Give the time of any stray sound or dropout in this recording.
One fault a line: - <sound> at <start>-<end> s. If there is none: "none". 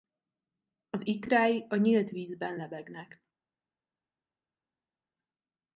none